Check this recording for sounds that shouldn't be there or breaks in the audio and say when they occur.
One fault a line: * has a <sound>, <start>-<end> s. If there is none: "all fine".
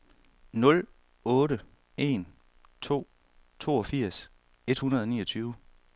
all fine